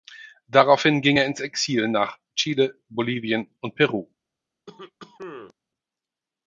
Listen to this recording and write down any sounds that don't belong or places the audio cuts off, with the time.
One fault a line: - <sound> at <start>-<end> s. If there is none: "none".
- cough at 4.7-5.5 s